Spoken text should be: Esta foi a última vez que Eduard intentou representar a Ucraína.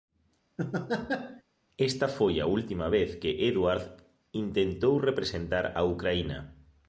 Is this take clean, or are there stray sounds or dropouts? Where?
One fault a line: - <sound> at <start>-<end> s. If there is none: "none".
- laugh at 0.6-1.4 s